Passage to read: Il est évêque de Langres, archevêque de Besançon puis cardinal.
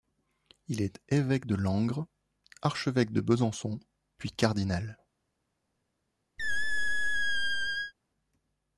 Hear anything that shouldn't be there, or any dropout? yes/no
yes